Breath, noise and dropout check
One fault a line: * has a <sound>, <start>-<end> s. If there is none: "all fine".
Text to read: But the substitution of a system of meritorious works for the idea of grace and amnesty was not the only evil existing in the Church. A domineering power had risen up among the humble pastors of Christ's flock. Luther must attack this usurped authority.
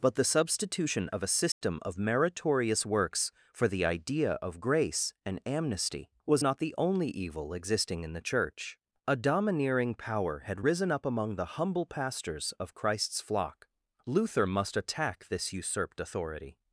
* has a dropout, 1.5-1.6 s